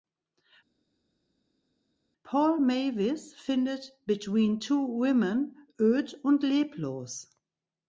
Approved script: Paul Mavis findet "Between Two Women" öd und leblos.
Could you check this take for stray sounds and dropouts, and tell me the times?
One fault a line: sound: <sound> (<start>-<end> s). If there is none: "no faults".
no faults